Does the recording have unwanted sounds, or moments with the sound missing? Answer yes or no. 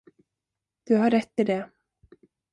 no